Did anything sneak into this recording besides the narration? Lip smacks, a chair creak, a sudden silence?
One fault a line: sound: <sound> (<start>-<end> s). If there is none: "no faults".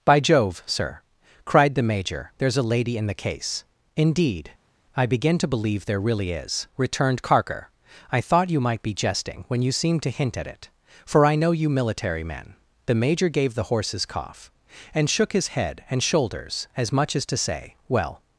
no faults